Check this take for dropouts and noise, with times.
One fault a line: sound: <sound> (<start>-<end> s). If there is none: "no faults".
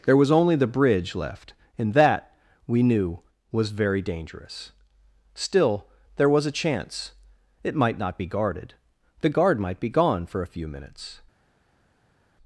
no faults